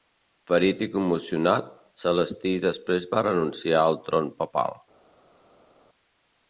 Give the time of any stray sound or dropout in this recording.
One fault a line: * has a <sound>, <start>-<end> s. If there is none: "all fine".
all fine